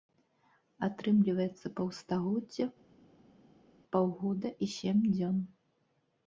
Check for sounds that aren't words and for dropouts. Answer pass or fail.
pass